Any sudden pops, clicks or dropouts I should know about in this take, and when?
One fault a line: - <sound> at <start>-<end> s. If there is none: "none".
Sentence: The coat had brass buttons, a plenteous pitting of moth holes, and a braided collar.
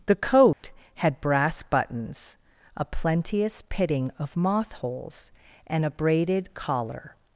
- dropout at 0.5-0.6 s